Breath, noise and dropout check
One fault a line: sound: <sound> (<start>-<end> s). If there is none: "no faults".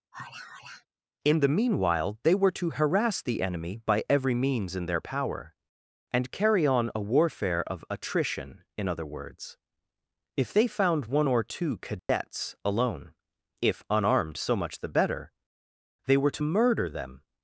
sound: sigh (0.1-0.9 s)
sound: dropout (12.0-12.1 s)